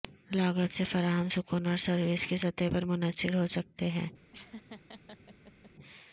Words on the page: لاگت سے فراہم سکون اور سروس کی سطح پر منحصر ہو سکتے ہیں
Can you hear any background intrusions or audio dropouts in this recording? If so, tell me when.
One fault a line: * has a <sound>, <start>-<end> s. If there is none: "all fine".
* has a laugh, 4.3-5.7 s